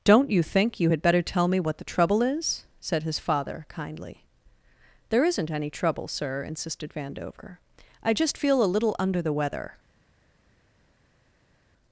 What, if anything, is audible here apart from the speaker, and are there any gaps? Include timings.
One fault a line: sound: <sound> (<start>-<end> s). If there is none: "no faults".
no faults